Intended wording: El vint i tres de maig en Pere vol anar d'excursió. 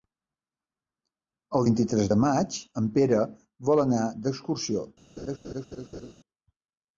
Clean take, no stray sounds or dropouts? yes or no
no